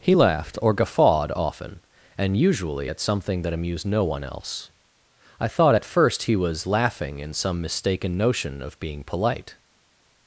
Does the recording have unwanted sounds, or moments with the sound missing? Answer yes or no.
no